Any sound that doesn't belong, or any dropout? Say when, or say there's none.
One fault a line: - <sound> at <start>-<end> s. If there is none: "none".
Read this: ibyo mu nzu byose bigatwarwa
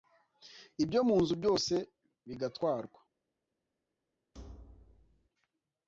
- thud at 4.3-5.3 s